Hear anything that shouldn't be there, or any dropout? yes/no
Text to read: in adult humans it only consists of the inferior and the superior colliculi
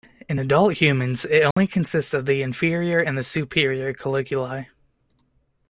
yes